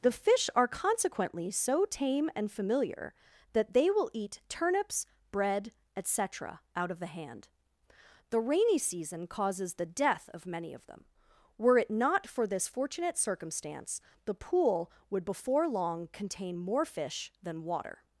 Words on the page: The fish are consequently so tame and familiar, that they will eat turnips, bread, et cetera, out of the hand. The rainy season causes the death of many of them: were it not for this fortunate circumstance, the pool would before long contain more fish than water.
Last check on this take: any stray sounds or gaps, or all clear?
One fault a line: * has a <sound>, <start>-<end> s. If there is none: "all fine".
all fine